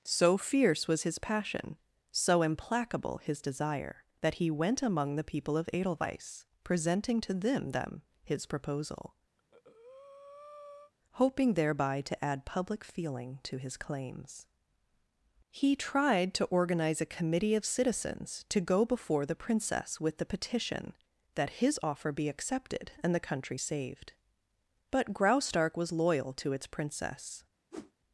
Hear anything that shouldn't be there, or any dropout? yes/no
yes